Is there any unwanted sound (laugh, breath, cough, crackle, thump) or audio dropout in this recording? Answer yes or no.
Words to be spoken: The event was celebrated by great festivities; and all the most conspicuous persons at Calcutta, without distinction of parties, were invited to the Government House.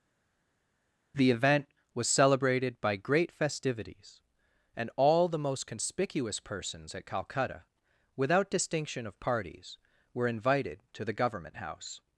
no